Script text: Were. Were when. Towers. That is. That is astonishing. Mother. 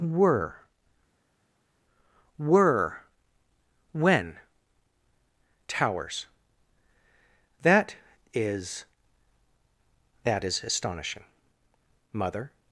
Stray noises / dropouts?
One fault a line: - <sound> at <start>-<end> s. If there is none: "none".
none